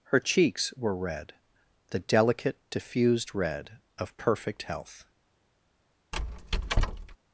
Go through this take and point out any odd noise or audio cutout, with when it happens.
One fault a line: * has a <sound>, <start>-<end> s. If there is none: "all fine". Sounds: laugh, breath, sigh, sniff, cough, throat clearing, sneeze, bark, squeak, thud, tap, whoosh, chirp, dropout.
* has a squeak, 6.1-7.2 s